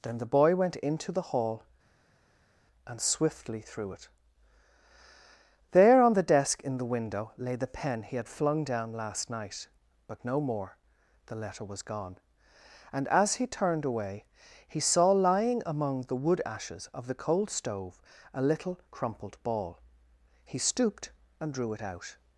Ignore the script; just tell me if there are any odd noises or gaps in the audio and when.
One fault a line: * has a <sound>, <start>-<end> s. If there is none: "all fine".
all fine